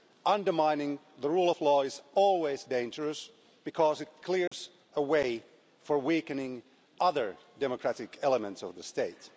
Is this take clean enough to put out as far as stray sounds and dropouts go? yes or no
no